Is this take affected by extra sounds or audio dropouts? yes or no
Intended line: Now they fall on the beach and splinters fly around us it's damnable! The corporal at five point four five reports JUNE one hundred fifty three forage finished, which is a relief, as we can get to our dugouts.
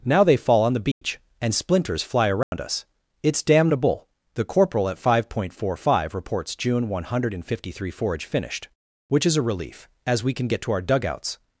yes